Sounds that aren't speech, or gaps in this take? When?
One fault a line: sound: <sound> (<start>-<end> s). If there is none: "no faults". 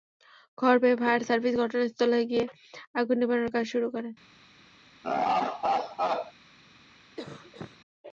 sound: laugh (5.0-6.3 s)
sound: cough (7.2-7.8 s)